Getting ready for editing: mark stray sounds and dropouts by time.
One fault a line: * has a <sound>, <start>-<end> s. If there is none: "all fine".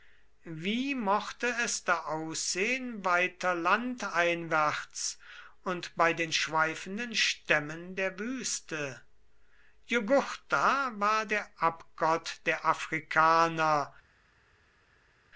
all fine